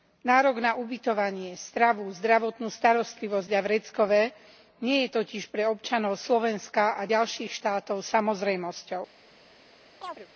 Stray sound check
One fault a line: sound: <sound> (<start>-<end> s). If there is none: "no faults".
sound: chirp (10.0-10.3 s)